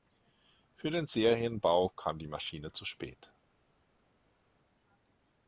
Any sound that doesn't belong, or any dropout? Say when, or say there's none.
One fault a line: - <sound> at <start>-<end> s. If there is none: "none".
none